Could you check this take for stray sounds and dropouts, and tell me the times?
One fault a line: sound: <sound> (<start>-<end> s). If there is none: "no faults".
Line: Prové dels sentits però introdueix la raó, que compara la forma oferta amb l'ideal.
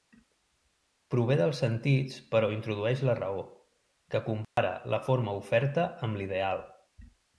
sound: dropout (4.4-4.6 s)